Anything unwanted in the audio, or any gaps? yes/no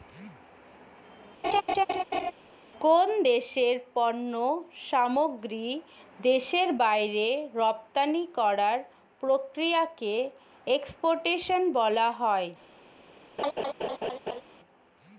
yes